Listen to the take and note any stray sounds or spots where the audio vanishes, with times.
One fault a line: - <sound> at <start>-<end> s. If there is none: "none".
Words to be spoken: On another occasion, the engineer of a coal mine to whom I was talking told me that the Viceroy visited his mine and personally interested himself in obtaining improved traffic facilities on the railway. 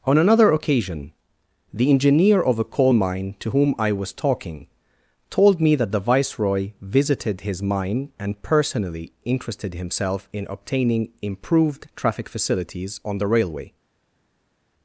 none